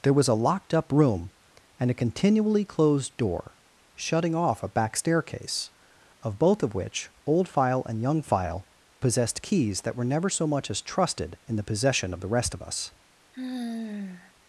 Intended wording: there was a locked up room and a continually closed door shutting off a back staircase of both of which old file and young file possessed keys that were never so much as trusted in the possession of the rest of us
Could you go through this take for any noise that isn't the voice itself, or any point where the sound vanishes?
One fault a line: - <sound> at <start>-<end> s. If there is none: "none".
- sigh at 13.3-14.3 s